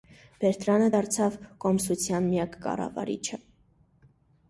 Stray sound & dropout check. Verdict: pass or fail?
pass